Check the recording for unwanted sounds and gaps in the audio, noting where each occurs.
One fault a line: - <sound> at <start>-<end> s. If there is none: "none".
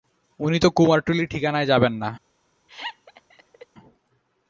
- laugh at 2.7-3.7 s